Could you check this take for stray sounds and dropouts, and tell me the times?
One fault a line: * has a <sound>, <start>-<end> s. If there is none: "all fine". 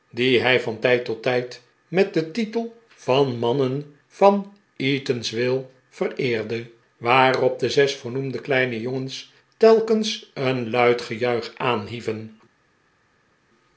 all fine